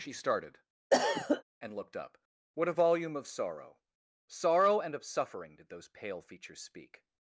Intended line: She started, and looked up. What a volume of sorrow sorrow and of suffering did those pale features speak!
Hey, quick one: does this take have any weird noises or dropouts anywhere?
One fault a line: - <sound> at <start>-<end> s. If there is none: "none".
- cough at 0.9-1.4 s